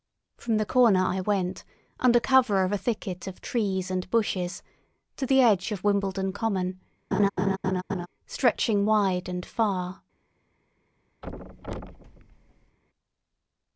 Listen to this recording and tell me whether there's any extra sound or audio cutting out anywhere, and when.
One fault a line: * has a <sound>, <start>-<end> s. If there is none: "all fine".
* has a laugh, 7.1-8.1 s
* has a thud, 11.2-12.8 s